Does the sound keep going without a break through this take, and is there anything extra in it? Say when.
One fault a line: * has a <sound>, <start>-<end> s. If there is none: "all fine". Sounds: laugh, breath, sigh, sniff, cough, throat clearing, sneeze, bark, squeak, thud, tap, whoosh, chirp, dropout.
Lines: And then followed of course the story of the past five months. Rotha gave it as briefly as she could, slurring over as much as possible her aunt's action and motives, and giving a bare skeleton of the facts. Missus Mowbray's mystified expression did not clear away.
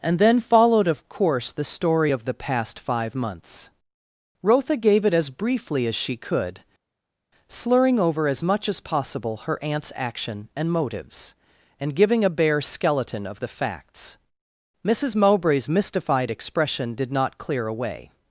all fine